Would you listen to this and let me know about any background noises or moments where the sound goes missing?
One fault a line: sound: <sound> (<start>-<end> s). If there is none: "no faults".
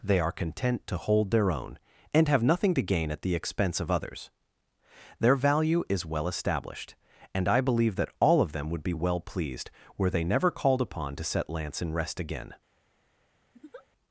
sound: laugh (13.5-13.9 s)